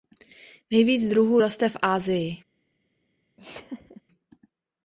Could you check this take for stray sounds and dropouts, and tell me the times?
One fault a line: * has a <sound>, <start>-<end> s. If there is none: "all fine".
* has a laugh, 3.4-4.0 s